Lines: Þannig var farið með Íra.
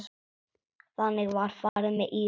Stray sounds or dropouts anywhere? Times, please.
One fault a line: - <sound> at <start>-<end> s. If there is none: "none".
- dropout at 1.7-1.8 s